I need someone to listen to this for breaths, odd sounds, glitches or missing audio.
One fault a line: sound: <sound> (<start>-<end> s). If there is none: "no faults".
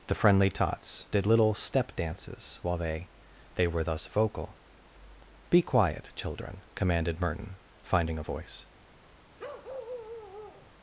sound: bark (9.4-10.7 s)